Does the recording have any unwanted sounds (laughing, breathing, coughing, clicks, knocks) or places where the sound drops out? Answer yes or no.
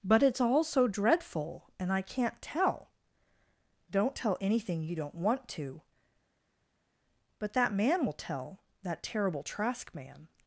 no